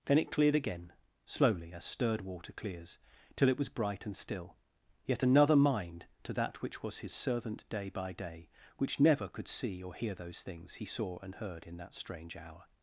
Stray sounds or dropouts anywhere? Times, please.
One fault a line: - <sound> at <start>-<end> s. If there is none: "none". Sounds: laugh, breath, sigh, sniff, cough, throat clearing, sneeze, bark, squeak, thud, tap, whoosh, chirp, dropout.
none